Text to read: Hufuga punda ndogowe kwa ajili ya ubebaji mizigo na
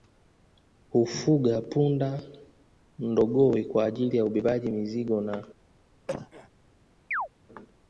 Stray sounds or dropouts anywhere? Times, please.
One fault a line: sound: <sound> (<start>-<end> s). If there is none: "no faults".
sound: cough (6.1-6.5 s)
sound: chirp (7.1-7.3 s)